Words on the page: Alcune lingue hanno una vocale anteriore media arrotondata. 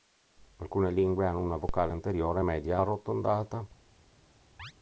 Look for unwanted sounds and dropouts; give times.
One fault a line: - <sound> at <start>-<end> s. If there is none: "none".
- chirp at 4.6-4.7 s